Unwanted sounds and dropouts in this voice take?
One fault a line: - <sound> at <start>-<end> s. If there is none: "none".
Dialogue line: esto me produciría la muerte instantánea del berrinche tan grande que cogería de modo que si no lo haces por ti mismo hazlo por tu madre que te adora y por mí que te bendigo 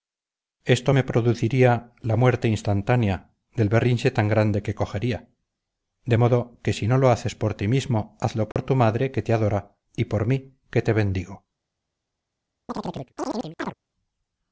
- dropout at 8.5-8.6 s
- chirp at 12.7-13.7 s